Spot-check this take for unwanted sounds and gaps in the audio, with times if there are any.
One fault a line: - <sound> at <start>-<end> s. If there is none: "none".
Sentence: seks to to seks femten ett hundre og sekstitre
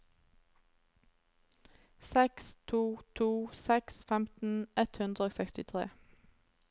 none